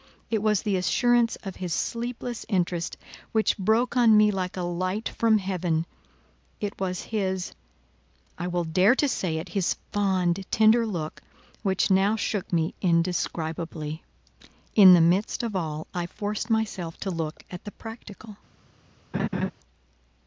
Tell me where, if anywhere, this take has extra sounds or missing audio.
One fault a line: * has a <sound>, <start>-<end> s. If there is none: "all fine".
* has a laugh, 19.1-19.5 s